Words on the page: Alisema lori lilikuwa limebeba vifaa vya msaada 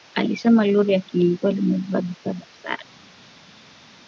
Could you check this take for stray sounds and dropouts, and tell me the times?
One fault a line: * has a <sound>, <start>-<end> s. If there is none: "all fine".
all fine